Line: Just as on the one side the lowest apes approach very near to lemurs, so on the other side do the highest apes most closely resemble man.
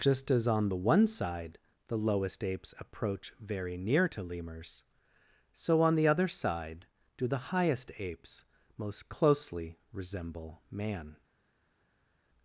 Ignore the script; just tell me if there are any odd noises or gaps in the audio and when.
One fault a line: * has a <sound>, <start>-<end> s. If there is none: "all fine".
all fine